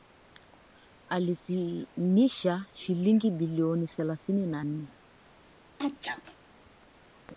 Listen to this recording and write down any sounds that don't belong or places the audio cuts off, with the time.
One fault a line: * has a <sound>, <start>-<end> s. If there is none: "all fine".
* has a sneeze, 5.8-6.4 s